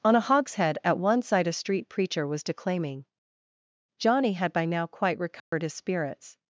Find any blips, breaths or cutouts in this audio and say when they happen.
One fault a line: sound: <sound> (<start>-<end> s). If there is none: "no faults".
sound: dropout (5.4-5.5 s)